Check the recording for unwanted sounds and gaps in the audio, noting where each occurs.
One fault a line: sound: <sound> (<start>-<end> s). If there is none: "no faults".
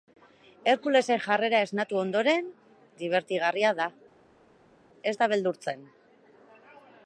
no faults